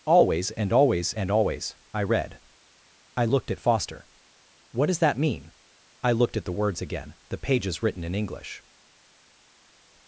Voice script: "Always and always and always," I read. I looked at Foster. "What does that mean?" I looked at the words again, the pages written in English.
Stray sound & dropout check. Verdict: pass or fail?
pass